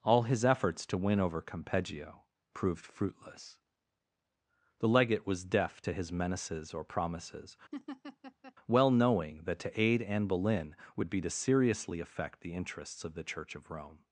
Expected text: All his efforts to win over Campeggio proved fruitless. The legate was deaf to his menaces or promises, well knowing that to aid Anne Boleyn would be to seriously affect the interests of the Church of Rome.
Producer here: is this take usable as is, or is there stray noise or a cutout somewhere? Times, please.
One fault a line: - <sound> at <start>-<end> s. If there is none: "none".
- laugh at 7.7-8.5 s